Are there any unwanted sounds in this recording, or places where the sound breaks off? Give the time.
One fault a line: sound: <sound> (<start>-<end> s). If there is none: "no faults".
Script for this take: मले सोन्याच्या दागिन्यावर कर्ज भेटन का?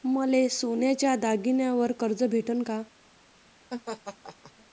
sound: laugh (3.7-4.5 s)